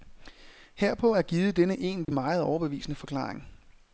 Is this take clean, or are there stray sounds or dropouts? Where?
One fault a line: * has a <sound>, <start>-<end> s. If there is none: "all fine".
* has a dropout, 2.0-2.1 s